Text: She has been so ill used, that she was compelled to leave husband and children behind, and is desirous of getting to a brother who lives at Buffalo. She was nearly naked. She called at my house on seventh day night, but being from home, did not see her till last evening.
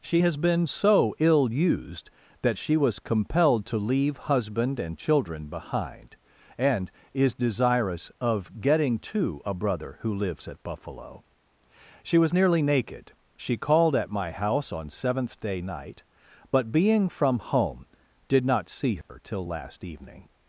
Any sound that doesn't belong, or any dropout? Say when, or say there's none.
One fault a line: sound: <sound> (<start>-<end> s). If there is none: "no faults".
sound: dropout (19.0-19.1 s)